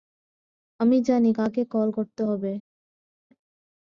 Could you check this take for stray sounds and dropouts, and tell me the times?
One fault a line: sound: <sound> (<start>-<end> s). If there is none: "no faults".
no faults